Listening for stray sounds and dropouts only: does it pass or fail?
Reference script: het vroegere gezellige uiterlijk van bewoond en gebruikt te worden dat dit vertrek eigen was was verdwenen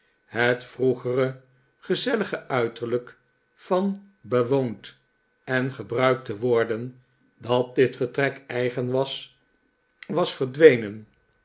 pass